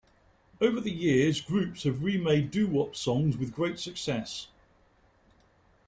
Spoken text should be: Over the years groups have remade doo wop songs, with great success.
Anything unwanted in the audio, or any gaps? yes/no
no